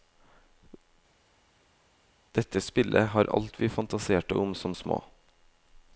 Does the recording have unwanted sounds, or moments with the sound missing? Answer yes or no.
no